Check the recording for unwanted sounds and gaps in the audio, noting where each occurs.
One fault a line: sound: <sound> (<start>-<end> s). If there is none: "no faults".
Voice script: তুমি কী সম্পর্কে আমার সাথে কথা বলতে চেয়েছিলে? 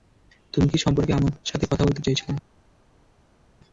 no faults